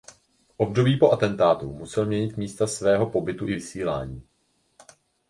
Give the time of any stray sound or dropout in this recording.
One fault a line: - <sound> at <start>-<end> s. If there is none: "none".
none